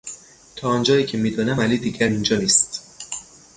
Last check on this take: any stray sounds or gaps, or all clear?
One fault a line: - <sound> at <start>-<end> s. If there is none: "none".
none